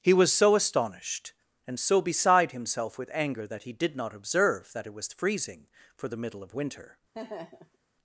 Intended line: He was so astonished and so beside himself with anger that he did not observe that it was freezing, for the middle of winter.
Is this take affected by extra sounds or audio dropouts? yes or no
yes